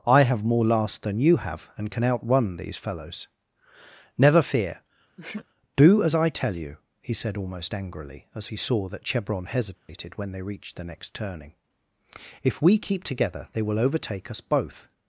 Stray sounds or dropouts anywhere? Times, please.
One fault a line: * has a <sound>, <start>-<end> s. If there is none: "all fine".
* has a sneeze, 5.2-5.5 s
* has a dropout, 9.8-9.9 s